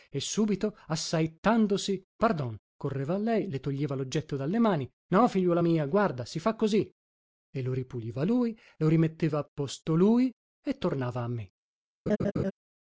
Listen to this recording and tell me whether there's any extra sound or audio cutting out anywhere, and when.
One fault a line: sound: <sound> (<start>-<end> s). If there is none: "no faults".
sound: laugh (12.1-12.5 s)